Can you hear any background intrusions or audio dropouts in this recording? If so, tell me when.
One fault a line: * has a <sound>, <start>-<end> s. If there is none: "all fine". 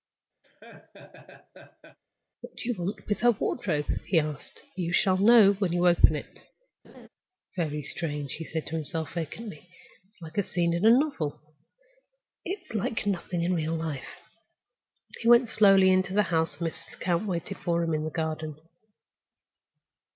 * has a laugh, 0.4-2.0 s
* has a laugh, 6.8-7.1 s